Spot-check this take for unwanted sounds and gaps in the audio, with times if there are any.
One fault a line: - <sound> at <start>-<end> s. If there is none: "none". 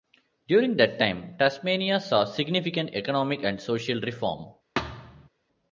- thud at 4.8-5.3 s